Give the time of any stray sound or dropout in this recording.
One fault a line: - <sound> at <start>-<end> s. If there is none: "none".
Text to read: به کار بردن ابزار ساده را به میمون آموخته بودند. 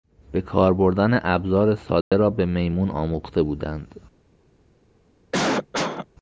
- dropout at 2.0-2.1 s
- cough at 5.3-6.1 s